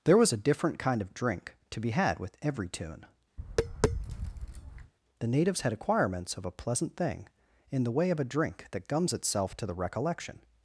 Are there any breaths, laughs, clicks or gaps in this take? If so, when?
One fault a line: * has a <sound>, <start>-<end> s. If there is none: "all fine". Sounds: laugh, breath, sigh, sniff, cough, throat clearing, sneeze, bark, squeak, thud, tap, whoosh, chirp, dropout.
* has a tap, 3.4-4.9 s